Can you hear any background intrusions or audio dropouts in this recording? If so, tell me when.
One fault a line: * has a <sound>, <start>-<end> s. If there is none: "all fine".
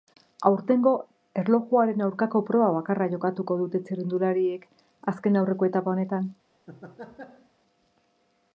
* has a laugh, 6.7-7.5 s